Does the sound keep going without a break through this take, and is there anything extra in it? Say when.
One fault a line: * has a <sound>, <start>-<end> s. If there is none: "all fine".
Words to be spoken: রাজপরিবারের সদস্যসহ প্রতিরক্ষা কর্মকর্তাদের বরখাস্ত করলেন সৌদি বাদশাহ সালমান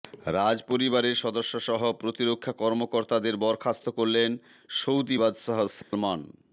* has a dropout, 5.8-5.9 s